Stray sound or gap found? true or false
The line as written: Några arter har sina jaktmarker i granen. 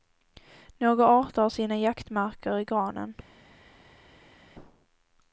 false